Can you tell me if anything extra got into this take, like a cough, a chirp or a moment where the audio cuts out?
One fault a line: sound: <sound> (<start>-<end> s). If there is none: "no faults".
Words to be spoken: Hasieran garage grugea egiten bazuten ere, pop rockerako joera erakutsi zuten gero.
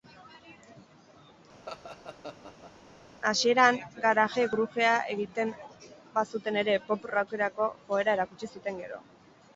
sound: laugh (1.7-2.7 s)